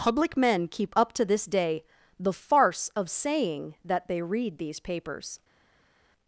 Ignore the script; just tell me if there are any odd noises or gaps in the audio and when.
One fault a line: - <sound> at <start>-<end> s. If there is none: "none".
none